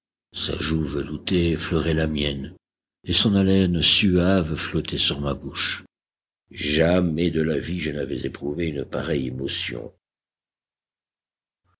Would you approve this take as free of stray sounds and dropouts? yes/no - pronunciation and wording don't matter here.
yes